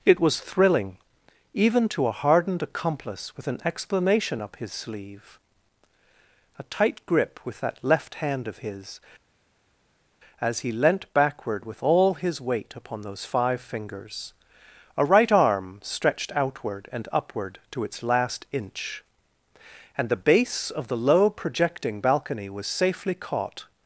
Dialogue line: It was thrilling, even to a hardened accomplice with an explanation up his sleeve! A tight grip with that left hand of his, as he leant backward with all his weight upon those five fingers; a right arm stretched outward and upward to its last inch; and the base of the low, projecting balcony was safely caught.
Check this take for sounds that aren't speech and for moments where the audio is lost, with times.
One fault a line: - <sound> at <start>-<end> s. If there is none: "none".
none